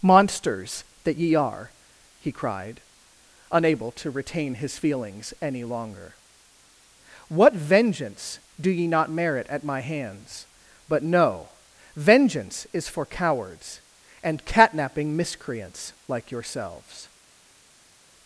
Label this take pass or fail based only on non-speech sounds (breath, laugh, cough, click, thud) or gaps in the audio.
pass